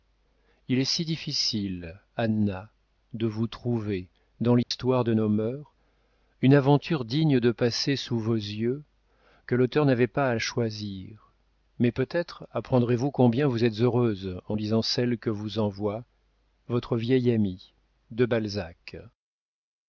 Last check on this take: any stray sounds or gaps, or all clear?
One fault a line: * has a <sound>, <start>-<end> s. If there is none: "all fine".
* has a dropout, 4.6-4.7 s